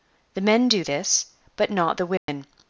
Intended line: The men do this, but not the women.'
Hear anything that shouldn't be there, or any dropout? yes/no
yes